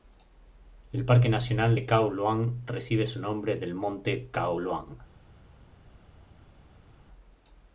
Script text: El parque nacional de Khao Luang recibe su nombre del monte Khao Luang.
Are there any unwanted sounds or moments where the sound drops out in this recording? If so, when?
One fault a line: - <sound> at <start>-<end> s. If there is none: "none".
none